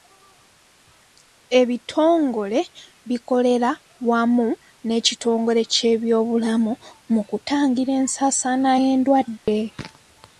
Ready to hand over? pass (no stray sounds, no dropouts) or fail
fail